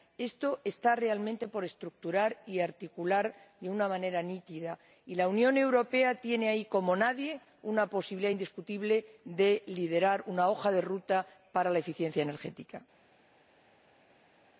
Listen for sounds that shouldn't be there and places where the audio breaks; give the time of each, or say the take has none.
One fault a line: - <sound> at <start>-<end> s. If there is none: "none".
none